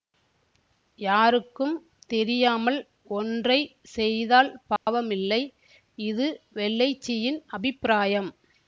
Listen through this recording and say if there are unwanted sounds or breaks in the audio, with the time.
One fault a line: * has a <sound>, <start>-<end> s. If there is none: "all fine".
* has a dropout, 4.8-4.9 s